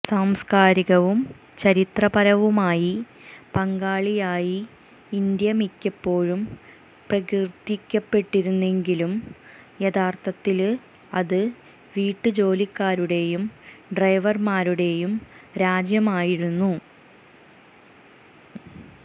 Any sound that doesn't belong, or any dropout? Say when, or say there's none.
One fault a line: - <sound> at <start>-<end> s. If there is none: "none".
none